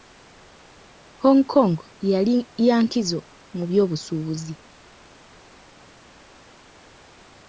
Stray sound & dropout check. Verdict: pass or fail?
pass